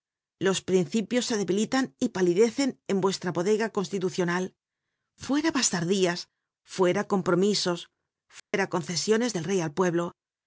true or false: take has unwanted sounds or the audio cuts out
true